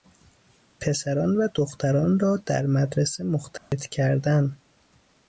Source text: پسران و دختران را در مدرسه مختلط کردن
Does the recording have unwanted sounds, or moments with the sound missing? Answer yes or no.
yes